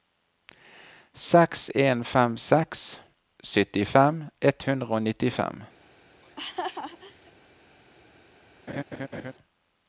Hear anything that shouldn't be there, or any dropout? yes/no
yes